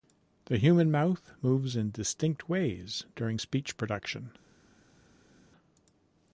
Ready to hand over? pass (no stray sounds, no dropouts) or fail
pass